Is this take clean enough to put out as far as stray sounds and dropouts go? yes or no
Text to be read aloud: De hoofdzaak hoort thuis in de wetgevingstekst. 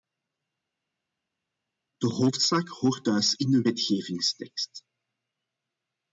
yes